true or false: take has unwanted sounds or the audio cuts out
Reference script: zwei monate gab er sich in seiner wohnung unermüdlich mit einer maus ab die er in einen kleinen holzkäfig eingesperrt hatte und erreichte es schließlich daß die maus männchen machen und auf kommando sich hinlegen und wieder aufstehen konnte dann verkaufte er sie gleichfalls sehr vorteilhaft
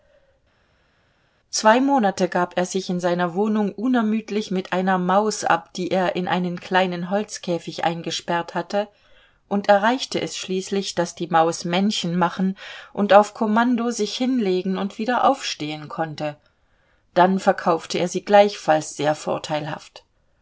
false